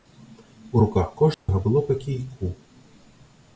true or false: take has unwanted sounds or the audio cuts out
true